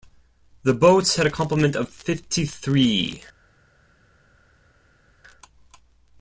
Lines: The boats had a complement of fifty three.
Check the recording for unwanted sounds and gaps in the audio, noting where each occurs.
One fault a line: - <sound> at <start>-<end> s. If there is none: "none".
none